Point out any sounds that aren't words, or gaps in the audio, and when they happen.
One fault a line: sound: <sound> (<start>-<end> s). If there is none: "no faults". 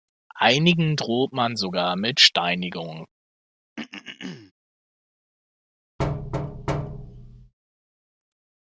sound: throat clearing (3.8-4.5 s)
sound: thud (6.0-7.5 s)